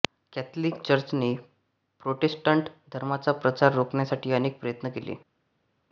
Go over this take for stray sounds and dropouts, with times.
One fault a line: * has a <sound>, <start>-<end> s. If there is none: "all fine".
all fine